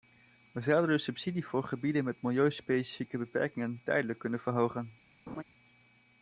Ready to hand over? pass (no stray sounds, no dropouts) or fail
fail